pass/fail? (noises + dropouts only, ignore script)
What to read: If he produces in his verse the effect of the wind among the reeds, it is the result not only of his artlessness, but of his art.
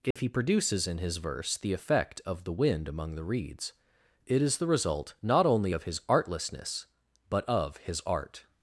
fail